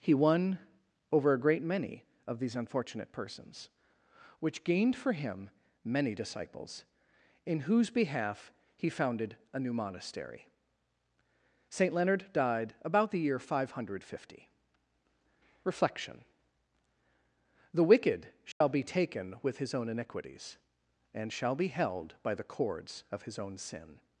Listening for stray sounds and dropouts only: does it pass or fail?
fail